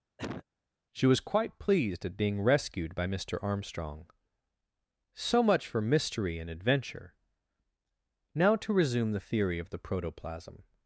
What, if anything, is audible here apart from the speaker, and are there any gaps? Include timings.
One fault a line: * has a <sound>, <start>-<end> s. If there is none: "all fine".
* has a cough, 0.2-0.4 s